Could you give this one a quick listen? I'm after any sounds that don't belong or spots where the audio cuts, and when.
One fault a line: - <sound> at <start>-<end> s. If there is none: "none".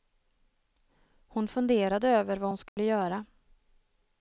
- dropout at 2.7-2.8 s